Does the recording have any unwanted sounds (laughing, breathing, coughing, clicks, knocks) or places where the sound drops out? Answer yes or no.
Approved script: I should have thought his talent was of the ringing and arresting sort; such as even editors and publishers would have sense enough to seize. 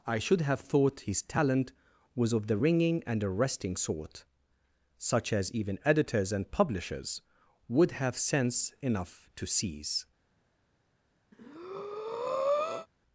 yes